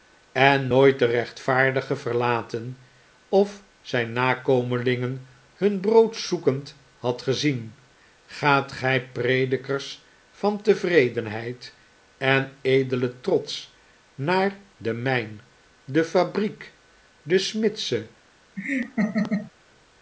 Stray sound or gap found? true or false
true